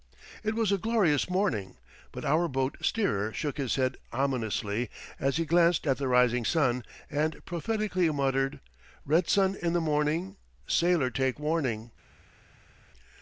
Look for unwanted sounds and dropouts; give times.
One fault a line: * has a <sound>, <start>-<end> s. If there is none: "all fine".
all fine